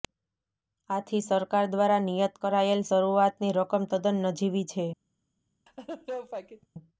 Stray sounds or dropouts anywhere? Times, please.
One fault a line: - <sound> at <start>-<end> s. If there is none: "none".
- laugh at 5.7-6.7 s